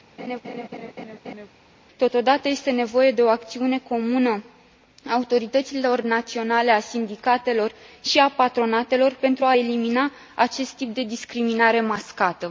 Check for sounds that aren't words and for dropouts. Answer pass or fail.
fail